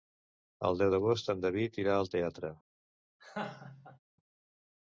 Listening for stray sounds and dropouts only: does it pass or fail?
fail